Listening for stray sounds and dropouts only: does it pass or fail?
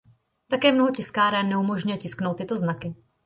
pass